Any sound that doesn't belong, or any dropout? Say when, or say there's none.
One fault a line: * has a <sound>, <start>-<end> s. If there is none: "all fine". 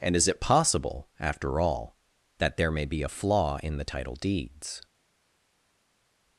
all fine